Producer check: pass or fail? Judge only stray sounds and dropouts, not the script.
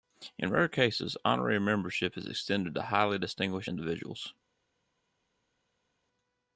pass